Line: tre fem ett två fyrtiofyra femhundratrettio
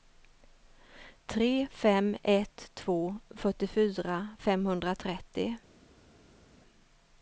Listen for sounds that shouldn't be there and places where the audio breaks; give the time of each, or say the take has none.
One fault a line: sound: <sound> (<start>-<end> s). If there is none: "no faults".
no faults